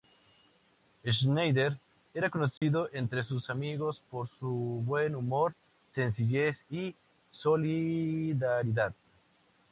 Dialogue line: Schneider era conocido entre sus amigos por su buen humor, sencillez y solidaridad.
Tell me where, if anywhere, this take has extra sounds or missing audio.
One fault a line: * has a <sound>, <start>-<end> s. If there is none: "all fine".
* has a dropout, 2.6-2.6 s